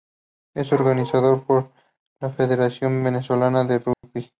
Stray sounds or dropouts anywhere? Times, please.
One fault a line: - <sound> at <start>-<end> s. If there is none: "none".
- dropout at 3.9-4.0 s